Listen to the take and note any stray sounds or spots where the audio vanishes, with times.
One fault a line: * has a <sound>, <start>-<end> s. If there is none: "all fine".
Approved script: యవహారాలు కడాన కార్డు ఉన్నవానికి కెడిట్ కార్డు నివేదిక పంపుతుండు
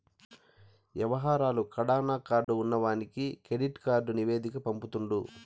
* has a dropout, 2.4-2.5 s